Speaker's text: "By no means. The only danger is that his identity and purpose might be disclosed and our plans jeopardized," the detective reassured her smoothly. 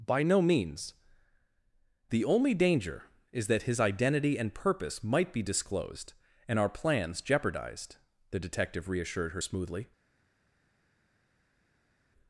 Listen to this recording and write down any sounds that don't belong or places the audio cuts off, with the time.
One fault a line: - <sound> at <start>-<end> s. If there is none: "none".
none